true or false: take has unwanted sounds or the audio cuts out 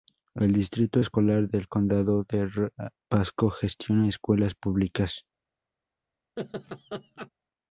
true